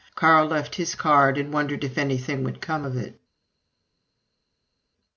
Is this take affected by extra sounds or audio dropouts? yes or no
no